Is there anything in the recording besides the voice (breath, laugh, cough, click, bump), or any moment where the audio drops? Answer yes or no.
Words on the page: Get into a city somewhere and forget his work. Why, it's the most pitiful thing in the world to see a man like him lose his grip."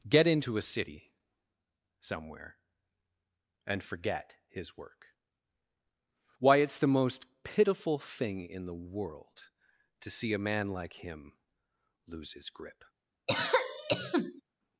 yes